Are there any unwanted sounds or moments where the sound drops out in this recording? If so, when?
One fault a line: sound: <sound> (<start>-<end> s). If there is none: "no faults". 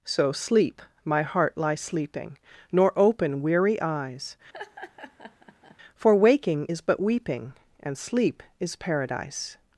sound: laugh (4.5-5.8 s)